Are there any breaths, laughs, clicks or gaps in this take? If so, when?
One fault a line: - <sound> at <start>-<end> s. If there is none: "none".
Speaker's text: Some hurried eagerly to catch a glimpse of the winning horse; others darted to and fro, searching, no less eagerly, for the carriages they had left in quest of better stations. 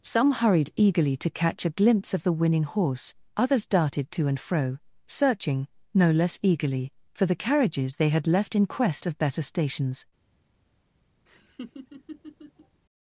- laugh at 11.3-12.8 s